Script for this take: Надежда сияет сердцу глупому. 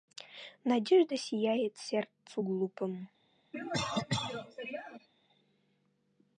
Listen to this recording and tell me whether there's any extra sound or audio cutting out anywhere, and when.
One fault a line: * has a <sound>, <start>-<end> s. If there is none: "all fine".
* has a cough, 3.5-5.1 s